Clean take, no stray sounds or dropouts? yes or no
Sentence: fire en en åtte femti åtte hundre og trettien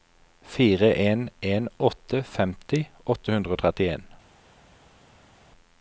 yes